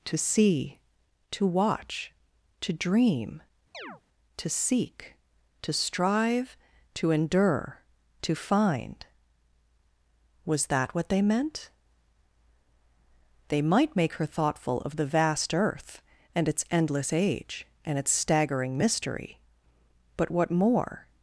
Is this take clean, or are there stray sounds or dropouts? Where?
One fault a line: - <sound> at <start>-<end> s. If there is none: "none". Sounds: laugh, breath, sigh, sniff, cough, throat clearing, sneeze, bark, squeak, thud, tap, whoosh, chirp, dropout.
- chirp at 3.7-4.0 s